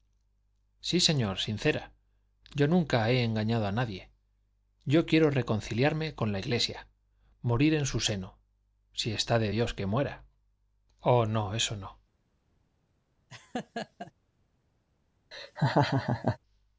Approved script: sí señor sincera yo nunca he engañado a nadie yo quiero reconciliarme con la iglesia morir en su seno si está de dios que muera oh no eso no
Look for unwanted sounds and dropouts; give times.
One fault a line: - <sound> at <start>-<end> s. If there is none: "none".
- laugh at 13.3-14.1 s
- laugh at 15.3-16.4 s